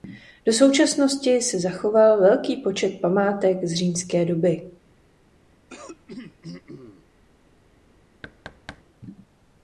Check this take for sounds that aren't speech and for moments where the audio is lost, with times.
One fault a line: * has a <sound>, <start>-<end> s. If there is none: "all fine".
* has a throat clearing, 5.7-7.1 s
* has a thud, 8.2-8.8 s